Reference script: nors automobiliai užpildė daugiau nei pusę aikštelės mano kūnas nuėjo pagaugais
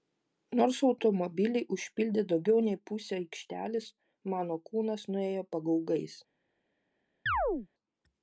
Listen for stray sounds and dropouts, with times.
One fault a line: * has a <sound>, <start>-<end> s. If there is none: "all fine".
* has a chirp, 7.3-7.7 s